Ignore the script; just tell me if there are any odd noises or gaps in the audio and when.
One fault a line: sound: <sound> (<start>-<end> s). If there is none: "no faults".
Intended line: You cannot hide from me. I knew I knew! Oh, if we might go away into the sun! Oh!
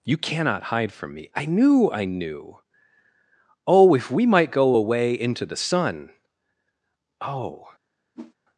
sound: whoosh (8.1-8.3 s)